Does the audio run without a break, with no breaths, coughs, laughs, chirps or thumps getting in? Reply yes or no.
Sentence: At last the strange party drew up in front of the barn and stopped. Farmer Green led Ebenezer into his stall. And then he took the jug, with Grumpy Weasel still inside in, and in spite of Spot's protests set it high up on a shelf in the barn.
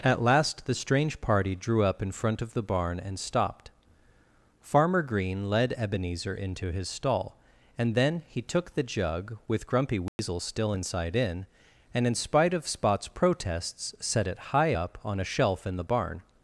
no